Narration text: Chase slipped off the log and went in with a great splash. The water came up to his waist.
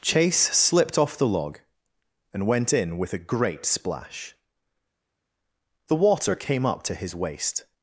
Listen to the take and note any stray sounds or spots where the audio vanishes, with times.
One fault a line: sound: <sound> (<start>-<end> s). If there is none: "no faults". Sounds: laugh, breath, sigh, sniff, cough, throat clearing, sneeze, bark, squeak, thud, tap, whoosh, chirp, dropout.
no faults